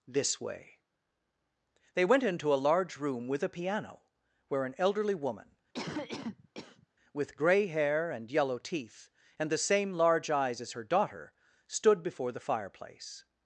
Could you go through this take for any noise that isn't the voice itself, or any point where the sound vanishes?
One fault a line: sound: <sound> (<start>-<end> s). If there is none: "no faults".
sound: cough (5.7-6.9 s)